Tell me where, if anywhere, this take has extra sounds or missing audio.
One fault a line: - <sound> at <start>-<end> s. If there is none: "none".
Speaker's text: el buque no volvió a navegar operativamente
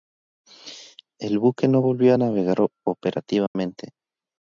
- dropout at 3.5-3.5 s